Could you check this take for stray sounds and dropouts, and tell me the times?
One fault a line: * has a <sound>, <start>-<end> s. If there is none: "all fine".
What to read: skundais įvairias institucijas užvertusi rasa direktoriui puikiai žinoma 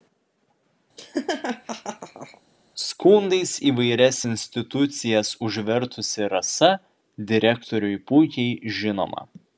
* has a laugh, 1.0-2.4 s